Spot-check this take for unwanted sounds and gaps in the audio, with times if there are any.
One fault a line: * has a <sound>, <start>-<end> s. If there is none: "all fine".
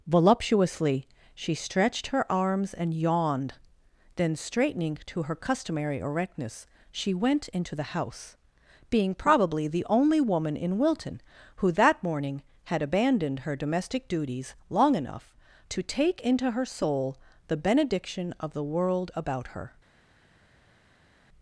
all fine